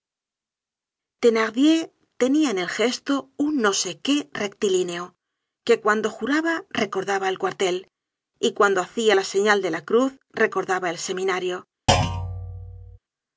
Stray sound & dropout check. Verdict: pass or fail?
fail